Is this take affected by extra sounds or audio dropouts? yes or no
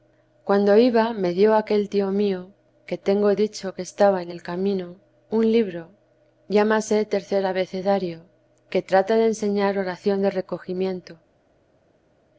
no